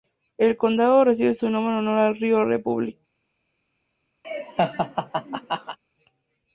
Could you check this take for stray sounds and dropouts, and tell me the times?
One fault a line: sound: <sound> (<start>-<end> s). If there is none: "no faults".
sound: laugh (4.2-5.8 s)